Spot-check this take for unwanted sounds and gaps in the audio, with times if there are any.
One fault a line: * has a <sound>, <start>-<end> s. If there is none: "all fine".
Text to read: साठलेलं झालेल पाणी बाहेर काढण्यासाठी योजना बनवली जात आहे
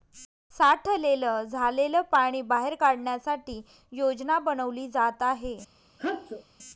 * has a sneeze, 6.0-6.4 s